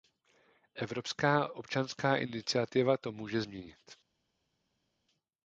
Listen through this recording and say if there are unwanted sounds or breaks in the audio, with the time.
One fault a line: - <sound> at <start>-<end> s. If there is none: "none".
none